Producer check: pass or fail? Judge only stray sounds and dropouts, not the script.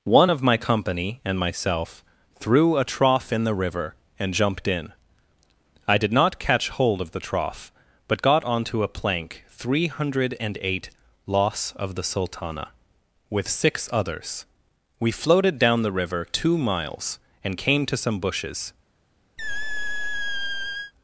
fail